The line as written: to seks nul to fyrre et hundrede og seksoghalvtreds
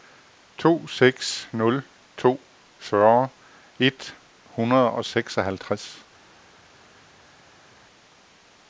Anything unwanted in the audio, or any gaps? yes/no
no